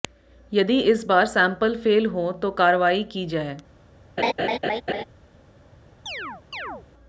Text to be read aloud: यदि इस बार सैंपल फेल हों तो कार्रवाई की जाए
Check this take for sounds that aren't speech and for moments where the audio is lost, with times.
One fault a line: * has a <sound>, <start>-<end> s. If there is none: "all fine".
* has a laugh, 4.2-5.0 s
* has a chirp, 6.1-6.9 s